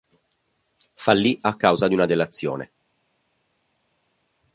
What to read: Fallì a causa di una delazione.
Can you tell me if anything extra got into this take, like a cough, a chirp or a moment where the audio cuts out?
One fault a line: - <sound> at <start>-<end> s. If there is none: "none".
none